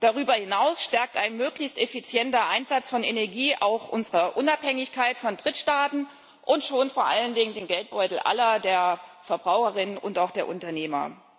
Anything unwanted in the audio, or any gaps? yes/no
no